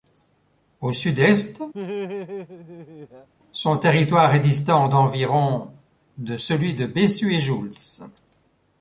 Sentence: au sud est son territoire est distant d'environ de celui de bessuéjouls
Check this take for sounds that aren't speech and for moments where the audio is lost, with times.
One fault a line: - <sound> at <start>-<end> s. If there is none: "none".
- laugh at 1.7-3.3 s